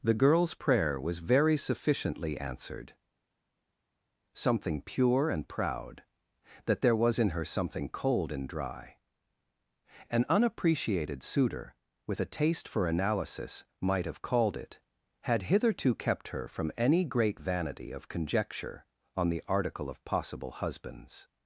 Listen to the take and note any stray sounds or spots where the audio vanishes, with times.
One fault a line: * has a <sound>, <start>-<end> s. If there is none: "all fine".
all fine